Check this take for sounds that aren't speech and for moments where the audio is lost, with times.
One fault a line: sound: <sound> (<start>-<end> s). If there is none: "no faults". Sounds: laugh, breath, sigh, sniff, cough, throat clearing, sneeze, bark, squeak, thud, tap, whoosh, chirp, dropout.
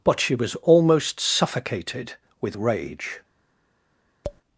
sound: tap (4.2-4.4 s)